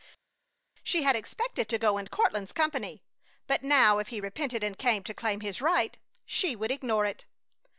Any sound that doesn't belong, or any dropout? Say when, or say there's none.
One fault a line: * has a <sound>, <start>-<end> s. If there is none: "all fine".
all fine